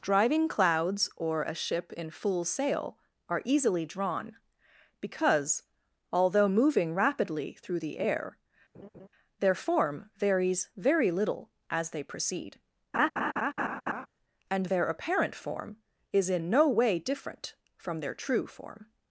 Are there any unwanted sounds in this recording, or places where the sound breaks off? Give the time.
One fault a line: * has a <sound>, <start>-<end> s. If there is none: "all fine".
* has a laugh, 8.7-9.1 s
* has a laugh, 12.9-14.1 s